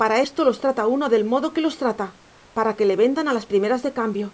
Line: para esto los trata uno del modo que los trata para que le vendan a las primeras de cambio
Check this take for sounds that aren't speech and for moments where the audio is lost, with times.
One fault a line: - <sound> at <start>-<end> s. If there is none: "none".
none